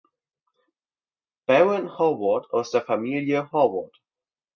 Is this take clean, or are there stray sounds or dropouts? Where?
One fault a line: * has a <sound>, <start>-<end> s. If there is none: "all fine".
all fine